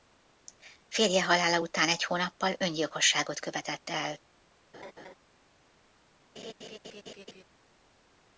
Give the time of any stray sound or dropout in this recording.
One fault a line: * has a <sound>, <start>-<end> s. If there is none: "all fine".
* has a laugh, 4.7-5.1 s
* has a laugh, 6.4-7.4 s